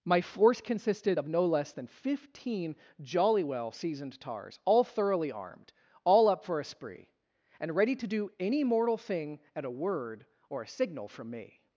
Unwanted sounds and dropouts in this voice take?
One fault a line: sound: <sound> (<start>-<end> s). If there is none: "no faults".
no faults